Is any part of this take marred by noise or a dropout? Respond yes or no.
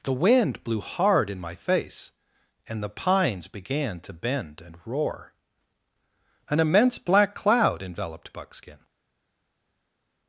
no